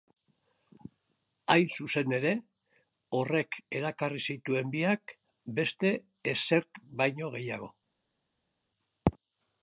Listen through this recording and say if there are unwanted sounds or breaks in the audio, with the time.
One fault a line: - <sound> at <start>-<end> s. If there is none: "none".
none